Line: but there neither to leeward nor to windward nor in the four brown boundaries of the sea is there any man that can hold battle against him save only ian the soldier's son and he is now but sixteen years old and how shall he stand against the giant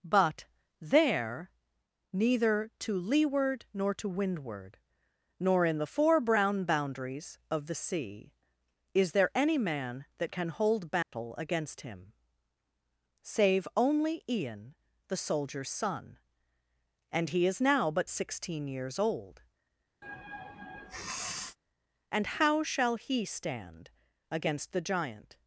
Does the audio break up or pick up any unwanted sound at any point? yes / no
yes